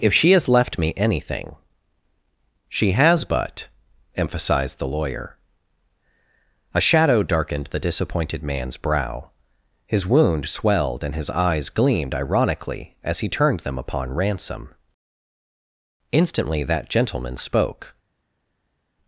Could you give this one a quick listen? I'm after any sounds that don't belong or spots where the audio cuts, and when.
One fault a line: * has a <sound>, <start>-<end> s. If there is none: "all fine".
all fine